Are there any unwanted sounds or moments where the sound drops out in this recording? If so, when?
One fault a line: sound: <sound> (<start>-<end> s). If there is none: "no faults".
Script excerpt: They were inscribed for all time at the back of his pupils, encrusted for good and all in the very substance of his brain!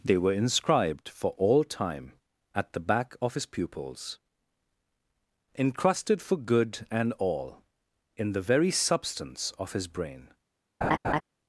sound: laugh (10.8-11.2 s)